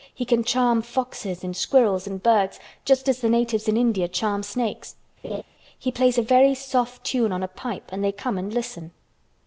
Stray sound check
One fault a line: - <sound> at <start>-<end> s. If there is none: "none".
- laugh at 5.2-5.4 s